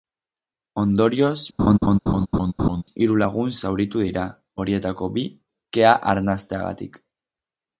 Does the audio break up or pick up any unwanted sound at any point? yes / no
yes